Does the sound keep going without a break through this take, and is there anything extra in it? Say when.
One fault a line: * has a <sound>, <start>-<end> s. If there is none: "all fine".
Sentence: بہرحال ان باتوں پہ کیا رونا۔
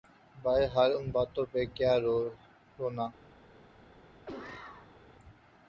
* has a cough, 4.3-5.0 s